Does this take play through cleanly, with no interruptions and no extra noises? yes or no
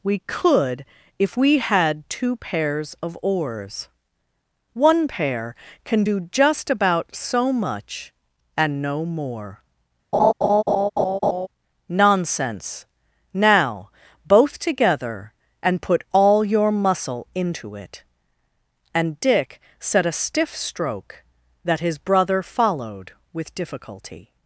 no